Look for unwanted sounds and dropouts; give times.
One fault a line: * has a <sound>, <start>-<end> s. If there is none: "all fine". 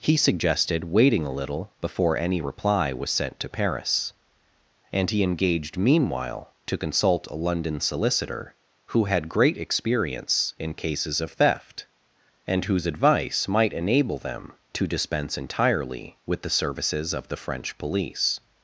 all fine